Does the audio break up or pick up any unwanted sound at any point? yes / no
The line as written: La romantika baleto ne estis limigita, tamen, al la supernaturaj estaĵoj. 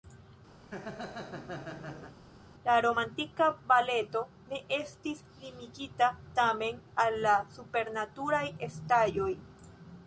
yes